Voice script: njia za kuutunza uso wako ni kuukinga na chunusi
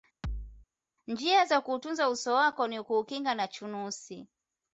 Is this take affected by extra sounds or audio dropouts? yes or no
yes